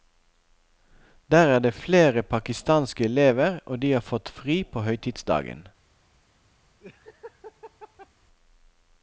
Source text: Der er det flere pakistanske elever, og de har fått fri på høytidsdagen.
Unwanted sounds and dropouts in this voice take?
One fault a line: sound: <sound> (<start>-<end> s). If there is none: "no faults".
sound: laugh (6.8-8.1 s)